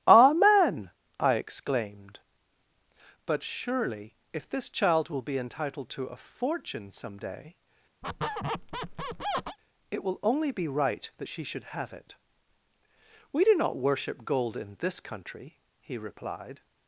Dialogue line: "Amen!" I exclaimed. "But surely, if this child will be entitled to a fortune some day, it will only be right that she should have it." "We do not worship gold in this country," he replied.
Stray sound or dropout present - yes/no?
yes